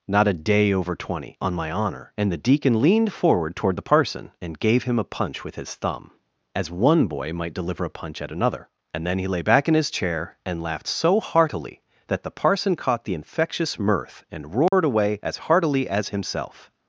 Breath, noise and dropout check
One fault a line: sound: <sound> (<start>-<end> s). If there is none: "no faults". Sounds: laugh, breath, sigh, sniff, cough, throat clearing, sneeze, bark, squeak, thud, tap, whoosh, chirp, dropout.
sound: dropout (14.7-14.7 s)